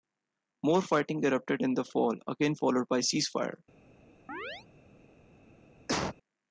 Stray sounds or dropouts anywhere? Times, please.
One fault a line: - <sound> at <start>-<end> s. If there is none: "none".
- chirp at 4.3-4.7 s
- cough at 5.9-6.2 s